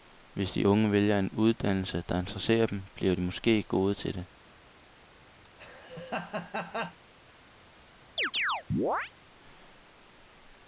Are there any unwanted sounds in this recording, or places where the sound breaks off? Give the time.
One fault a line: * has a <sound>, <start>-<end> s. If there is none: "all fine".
* has a laugh, 5.4-7.0 s
* has a chirp, 8.2-9.1 s